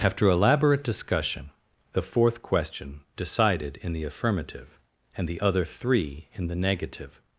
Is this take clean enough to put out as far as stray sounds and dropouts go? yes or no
yes